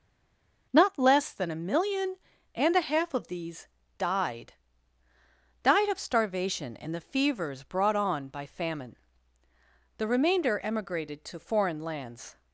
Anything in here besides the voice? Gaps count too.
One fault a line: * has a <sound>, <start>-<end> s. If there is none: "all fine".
all fine